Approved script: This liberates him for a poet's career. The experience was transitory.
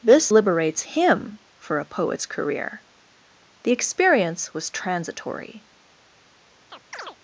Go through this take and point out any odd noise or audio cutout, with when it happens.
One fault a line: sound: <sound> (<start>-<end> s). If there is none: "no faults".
sound: chirp (6.7-7.2 s)